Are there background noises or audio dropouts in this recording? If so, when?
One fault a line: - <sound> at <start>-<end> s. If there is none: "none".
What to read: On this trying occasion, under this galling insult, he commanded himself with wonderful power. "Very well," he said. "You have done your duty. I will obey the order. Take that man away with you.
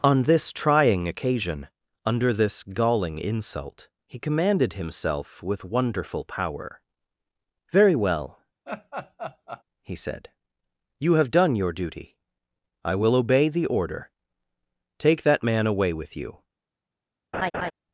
- laugh at 8.7-9.6 s
- laugh at 17.3-17.7 s